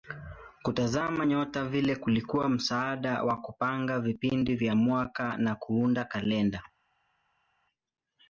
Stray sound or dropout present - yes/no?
no